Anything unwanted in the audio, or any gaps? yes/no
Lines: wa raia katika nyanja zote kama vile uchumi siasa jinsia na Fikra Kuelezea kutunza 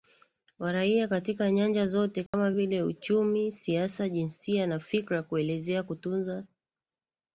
yes